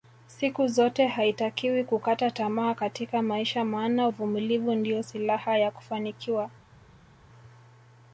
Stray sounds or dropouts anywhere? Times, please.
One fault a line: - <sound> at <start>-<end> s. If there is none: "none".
none